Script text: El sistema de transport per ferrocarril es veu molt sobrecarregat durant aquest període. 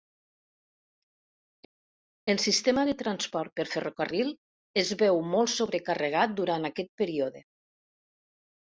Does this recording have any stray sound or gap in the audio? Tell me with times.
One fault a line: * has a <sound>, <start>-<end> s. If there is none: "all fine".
all fine